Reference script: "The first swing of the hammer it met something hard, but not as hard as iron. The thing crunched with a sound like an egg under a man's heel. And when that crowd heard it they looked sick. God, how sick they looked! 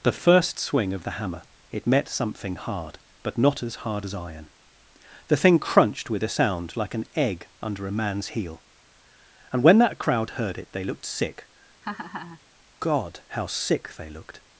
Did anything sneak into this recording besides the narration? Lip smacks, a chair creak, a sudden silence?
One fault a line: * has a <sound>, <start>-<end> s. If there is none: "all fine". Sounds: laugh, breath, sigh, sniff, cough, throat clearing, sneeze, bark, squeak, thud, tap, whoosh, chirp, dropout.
* has a laugh, 11.8-12.4 s